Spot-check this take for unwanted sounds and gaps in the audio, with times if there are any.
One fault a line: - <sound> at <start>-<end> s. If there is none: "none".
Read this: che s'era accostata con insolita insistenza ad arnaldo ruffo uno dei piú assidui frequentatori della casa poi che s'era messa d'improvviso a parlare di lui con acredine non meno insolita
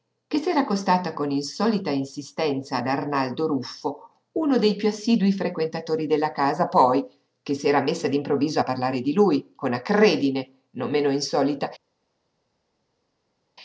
none